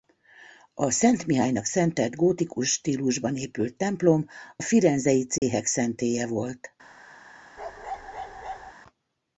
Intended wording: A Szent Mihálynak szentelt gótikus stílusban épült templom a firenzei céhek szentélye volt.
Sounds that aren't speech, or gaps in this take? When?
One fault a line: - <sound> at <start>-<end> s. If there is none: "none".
- dropout at 5.4-5.4 s
- bark at 7.6-8.7 s